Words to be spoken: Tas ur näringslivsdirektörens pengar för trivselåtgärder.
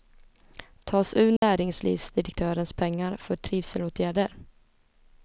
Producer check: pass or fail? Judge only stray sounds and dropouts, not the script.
fail